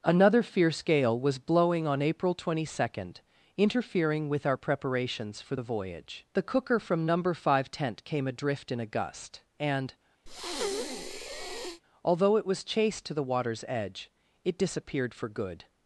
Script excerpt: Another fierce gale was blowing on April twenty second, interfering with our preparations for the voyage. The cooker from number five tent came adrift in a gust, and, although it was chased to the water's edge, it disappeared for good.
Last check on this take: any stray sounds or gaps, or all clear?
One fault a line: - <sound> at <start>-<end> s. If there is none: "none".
- breath at 10.3-11.8 s